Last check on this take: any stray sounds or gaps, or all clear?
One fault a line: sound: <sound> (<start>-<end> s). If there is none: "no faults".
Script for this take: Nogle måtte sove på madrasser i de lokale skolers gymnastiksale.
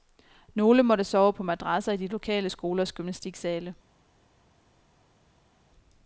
no faults